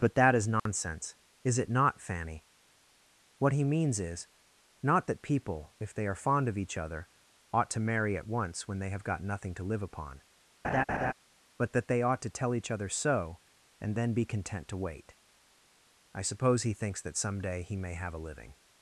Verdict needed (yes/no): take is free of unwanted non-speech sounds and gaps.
no